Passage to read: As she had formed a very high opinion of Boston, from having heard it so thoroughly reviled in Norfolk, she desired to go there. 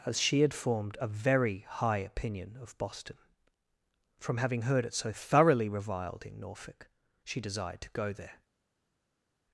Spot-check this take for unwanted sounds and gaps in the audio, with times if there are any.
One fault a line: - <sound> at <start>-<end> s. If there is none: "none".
none